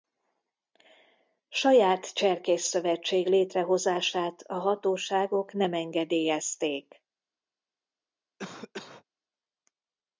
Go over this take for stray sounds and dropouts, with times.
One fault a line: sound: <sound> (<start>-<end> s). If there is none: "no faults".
sound: cough (8.4-9.0 s)